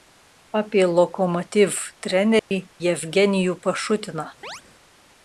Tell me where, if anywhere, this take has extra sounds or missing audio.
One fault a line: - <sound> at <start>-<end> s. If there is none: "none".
- dropout at 2.4-2.5 s
- chirp at 4.4-4.6 s